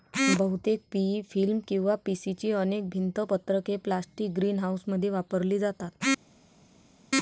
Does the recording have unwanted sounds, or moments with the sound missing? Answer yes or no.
no